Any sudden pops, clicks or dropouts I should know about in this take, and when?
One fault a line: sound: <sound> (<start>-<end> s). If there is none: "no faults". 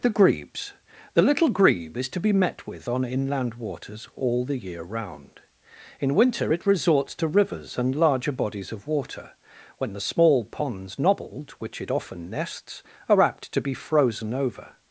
no faults